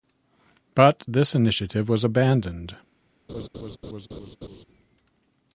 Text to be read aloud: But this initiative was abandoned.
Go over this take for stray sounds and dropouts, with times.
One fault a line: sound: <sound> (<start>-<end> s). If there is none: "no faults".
sound: laugh (3.3-4.6 s)